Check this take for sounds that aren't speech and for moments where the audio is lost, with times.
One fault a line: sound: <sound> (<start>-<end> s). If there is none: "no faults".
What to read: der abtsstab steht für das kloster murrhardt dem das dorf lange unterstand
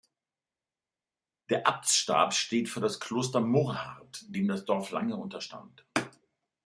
no faults